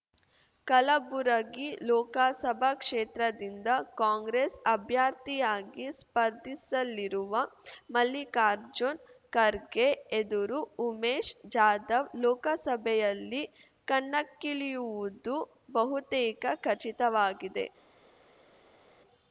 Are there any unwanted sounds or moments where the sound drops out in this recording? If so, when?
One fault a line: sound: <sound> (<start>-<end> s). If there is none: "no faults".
no faults